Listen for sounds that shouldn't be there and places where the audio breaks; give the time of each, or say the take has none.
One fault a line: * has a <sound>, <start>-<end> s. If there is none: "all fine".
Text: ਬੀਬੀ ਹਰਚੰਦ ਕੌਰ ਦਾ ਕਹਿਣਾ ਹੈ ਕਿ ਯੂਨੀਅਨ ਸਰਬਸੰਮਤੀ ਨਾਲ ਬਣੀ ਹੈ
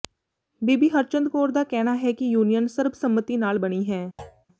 * has a thud, 4.2-4.5 s